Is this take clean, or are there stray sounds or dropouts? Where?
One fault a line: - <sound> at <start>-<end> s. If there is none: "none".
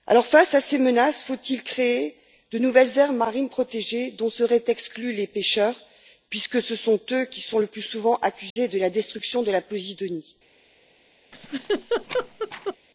- dropout at 8.5-8.6 s
- laugh at 11.3-12.8 s